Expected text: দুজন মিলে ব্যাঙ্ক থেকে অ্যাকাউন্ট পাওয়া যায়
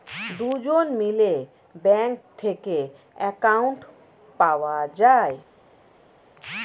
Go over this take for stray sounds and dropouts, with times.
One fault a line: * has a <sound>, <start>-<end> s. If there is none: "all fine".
all fine